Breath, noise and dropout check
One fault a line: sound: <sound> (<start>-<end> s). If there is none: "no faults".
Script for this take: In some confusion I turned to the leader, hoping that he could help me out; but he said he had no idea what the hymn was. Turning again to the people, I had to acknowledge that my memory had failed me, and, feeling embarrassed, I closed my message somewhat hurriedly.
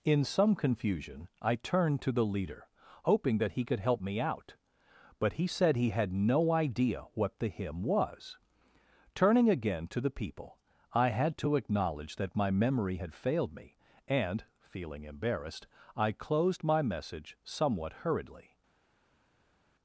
no faults